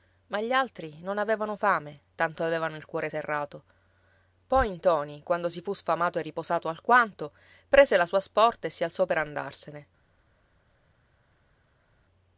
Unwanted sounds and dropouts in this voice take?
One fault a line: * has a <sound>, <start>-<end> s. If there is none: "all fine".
all fine